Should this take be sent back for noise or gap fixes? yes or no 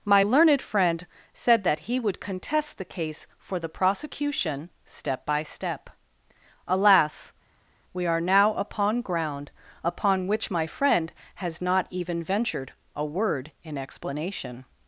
no